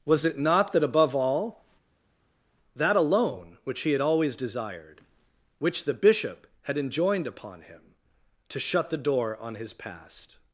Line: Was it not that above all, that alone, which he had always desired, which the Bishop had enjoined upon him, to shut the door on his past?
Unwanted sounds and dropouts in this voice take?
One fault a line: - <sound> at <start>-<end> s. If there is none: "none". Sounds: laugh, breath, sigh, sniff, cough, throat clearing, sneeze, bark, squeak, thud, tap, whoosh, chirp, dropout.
none